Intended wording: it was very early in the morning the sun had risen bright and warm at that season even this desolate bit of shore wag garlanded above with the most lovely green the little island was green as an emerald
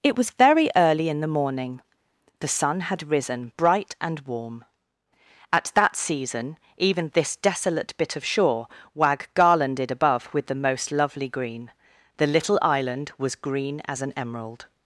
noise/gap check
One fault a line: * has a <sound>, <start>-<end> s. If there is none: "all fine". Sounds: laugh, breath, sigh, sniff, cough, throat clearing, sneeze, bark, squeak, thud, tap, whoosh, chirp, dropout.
all fine